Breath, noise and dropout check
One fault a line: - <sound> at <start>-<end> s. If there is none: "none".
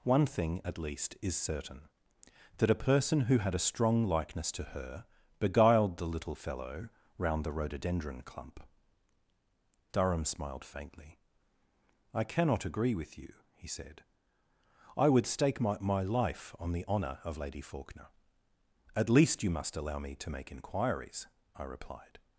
none